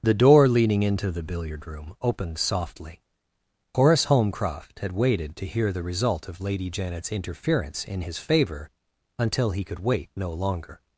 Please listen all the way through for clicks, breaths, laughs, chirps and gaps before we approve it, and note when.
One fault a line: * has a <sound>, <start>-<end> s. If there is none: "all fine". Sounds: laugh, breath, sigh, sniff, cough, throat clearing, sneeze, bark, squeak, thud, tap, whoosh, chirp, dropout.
all fine